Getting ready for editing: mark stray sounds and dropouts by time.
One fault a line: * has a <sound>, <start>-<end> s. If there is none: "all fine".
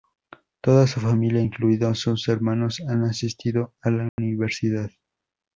* has a dropout, 4.1-4.2 s